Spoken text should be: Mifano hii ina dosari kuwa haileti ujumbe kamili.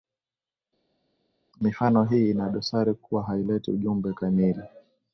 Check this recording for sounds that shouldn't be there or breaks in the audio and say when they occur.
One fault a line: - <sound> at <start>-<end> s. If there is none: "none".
none